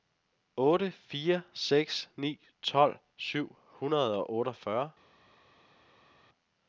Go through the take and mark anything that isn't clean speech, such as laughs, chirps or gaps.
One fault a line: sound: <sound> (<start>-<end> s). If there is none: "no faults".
no faults